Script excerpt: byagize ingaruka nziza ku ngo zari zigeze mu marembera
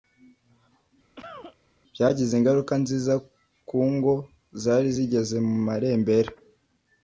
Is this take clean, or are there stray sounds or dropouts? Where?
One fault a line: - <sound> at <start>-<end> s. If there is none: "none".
- cough at 1.1-1.6 s